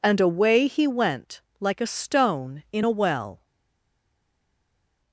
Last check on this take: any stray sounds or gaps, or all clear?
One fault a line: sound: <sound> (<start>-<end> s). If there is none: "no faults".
no faults